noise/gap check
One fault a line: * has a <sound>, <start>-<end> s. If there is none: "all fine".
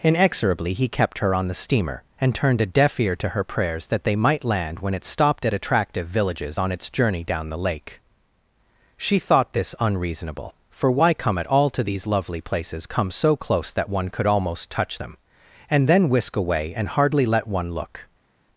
all fine